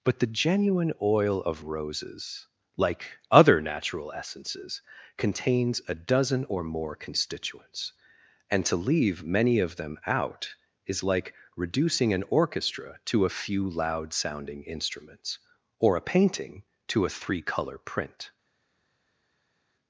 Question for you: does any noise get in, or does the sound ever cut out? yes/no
no